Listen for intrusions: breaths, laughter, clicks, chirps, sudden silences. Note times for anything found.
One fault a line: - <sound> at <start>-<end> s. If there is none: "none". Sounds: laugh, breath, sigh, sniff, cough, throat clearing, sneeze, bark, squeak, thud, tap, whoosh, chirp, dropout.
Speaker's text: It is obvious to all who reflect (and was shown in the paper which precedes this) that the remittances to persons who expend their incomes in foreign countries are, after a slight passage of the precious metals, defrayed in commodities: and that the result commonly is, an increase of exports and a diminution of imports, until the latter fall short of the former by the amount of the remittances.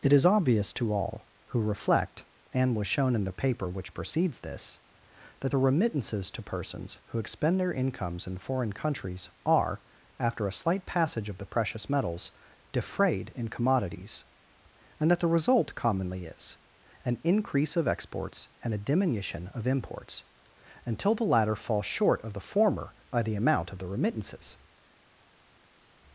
none